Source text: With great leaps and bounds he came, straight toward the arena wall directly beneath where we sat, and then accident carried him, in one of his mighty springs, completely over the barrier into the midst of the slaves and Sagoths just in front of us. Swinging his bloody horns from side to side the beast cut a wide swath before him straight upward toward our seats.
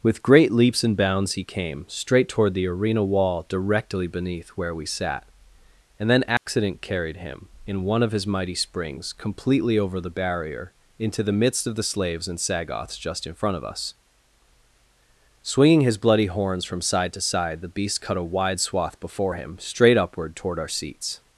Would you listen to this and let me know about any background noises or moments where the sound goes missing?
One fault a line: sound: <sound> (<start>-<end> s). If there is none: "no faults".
sound: dropout (6.4-6.5 s)